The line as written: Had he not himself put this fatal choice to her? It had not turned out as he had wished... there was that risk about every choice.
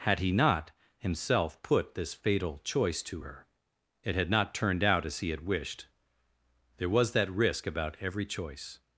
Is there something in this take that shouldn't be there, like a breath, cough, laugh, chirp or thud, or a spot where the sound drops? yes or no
no